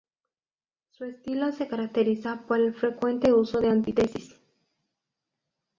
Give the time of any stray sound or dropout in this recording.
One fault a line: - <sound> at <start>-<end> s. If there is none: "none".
none